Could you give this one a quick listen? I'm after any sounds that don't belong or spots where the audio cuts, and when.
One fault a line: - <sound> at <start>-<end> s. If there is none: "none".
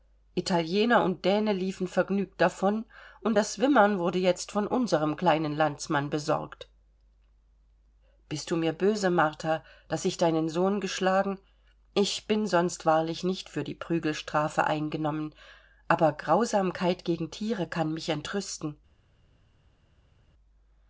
none